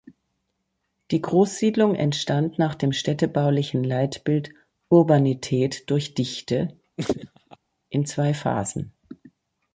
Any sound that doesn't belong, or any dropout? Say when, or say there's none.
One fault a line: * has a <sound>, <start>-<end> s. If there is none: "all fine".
* has a laugh, 7.0-7.6 s